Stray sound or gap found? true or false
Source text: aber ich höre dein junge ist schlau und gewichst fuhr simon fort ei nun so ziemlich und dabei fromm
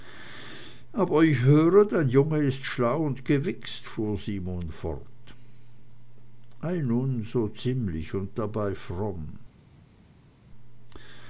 false